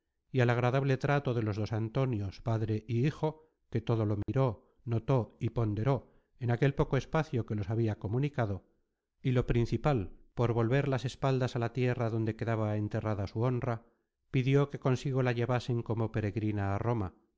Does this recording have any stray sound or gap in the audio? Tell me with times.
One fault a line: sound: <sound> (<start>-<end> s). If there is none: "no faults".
sound: dropout (4.2-4.3 s)